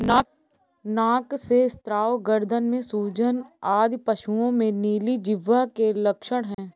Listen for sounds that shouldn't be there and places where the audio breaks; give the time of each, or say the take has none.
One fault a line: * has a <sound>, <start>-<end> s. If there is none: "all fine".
* has a dropout, 6.5-6.6 s